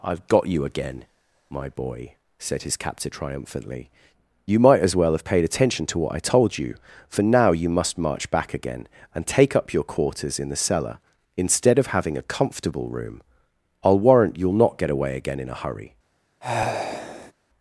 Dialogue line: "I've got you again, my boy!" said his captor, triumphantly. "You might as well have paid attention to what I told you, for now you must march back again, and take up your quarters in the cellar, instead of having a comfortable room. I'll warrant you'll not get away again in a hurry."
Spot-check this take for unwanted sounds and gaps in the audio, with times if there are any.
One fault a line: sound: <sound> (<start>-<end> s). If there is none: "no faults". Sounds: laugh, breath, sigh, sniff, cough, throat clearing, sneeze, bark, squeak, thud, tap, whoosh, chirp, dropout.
sound: sigh (16.4-17.3 s)